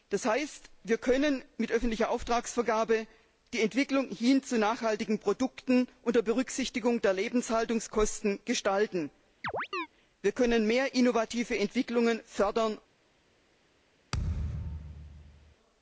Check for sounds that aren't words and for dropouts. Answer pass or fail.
fail